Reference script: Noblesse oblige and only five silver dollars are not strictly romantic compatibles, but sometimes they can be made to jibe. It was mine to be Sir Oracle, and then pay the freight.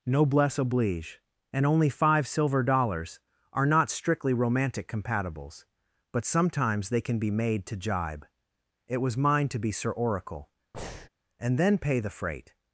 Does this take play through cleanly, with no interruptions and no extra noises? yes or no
no